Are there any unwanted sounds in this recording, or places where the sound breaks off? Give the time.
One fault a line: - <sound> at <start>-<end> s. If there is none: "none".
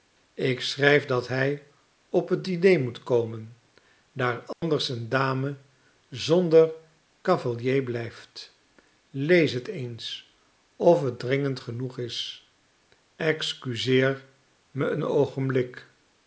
- dropout at 4.5-4.6 s